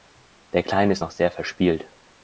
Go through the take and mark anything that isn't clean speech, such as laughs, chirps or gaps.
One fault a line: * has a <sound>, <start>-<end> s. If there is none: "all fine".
all fine